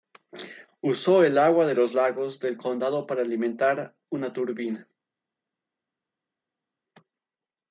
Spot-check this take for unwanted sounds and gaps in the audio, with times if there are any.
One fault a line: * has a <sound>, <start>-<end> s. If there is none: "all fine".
all fine